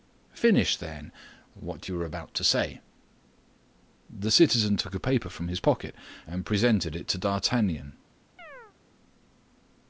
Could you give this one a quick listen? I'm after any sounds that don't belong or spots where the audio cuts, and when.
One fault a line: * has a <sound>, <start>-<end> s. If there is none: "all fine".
* has a chirp, 8.4-8.7 s